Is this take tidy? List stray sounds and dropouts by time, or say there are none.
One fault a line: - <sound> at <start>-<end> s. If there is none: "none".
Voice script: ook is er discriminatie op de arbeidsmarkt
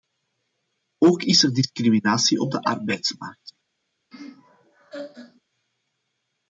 - laugh at 4.1-5.4 s